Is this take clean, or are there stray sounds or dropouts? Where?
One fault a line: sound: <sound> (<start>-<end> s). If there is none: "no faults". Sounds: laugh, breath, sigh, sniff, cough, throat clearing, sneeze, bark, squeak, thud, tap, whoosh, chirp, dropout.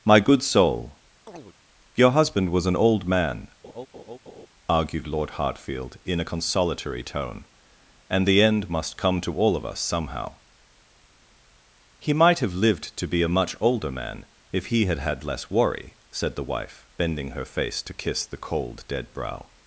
sound: chirp (1.3-1.6 s)
sound: laugh (3.6-4.5 s)